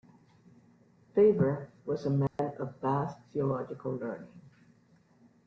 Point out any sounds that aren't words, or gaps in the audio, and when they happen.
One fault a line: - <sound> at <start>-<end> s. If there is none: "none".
- dropout at 2.3-2.4 s